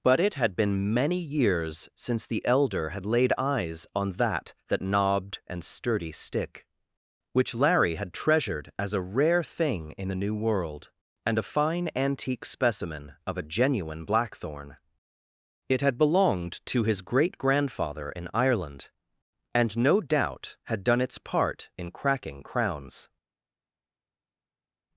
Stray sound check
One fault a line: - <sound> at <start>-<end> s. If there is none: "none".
none